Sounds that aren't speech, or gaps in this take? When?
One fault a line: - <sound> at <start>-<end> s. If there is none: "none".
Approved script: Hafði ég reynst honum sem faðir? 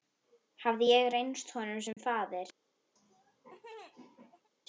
- dropout at 1.9-2.0 s
- laugh at 3.0-4.5 s